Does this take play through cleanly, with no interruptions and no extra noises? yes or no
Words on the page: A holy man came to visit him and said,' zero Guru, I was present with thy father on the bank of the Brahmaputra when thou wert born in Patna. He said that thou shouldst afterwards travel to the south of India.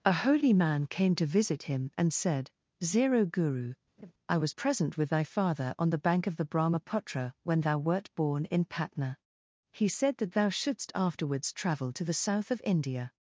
no